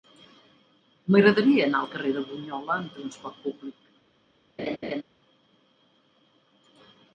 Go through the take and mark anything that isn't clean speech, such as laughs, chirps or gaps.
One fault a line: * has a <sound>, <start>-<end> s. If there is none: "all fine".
* has a laugh, 4.6-5.0 s